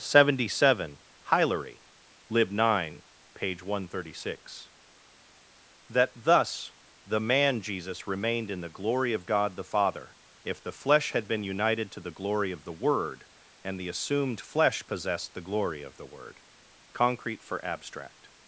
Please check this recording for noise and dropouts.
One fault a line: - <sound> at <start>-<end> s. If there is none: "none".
none